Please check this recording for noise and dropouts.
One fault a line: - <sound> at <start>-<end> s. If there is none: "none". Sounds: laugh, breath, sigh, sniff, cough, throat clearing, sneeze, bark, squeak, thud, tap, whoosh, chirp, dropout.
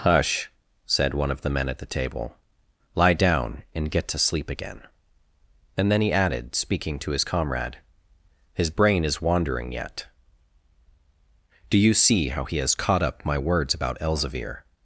none